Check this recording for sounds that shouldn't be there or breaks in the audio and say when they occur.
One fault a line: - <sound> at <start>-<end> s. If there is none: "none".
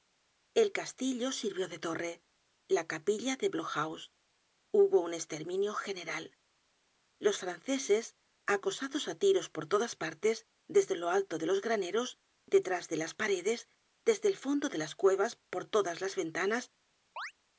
- chirp at 17.2-17.3 s